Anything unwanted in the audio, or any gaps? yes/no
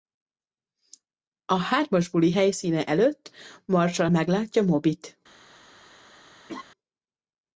yes